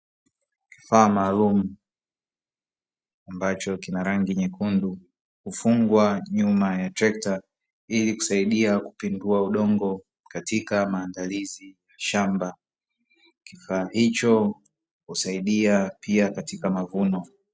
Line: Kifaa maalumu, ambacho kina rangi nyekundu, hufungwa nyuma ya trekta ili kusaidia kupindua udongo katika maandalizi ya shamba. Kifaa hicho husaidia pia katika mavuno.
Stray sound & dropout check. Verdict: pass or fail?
pass